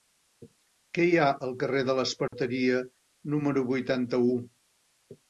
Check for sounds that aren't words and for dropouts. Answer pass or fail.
fail